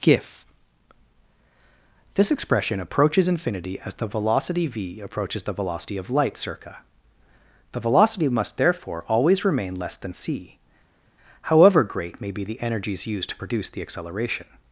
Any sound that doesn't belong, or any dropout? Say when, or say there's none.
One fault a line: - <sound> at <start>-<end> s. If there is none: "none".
none